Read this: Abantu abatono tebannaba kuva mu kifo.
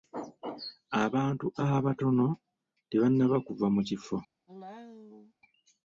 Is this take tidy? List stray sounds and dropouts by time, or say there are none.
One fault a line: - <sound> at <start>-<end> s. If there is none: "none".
- cough at 4.5-5.3 s